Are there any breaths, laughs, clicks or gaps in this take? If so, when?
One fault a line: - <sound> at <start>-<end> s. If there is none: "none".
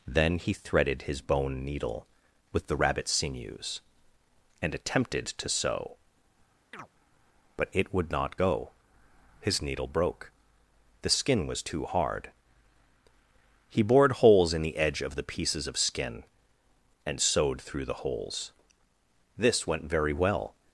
- chirp at 6.7-6.9 s